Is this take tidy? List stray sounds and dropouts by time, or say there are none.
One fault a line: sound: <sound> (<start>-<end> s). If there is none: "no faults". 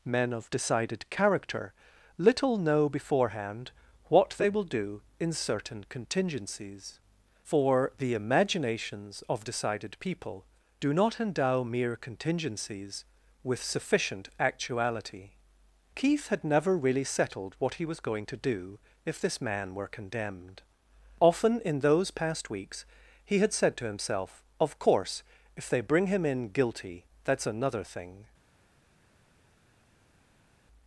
no faults